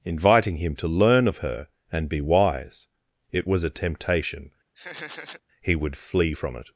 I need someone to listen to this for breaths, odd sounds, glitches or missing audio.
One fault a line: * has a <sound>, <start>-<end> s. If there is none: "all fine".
* has a laugh, 4.8-5.4 s